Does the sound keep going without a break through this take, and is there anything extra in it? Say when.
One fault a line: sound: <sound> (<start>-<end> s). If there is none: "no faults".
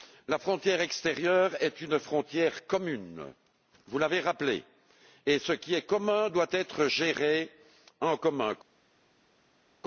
no faults